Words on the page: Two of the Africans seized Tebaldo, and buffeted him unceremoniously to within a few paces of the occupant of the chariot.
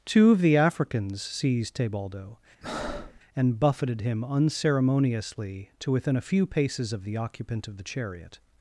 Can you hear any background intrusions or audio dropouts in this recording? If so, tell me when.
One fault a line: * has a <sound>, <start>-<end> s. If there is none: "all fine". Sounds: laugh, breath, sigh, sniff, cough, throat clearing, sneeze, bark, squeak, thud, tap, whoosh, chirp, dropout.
* has a breath, 2.6-3.2 s